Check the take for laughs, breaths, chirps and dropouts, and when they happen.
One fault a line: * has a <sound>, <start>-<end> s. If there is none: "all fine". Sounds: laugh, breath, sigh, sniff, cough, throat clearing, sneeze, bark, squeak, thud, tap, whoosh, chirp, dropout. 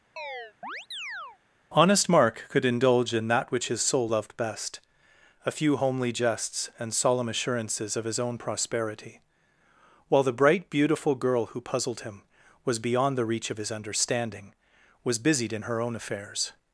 * has a chirp, 0.2-1.4 s